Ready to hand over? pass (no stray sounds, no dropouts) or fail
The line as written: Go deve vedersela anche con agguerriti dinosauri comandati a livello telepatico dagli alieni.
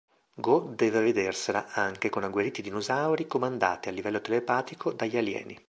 pass